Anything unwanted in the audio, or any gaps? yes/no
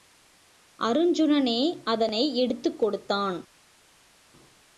no